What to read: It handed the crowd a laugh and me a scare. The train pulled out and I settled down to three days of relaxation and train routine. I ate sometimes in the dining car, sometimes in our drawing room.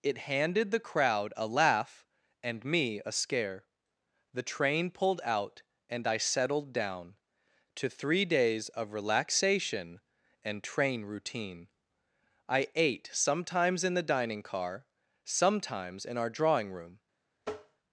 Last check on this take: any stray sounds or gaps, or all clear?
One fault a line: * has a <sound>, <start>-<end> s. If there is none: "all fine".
* has a tap, 17.4-17.8 s